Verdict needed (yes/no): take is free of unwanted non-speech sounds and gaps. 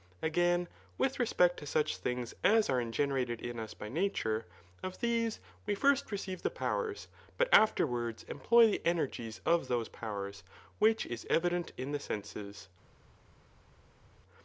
yes